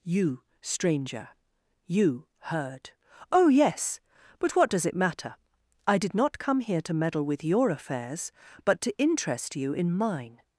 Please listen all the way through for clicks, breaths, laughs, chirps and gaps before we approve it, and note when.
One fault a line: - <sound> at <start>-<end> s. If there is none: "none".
none